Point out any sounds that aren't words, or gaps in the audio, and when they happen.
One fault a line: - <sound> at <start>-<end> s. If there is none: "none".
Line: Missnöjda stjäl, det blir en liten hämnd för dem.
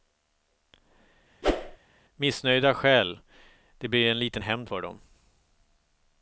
- whoosh at 1.4-1.8 s